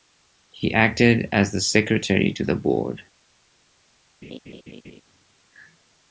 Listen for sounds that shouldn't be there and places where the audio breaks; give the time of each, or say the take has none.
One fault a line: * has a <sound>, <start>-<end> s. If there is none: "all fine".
* has a laugh, 4.2-5.0 s